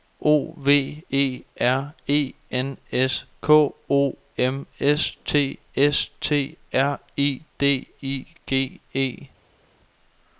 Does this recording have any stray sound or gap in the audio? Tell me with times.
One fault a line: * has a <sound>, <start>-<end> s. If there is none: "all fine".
all fine